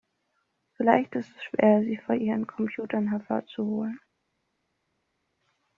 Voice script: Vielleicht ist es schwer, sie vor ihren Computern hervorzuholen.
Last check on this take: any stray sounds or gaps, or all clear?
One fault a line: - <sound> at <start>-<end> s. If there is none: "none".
none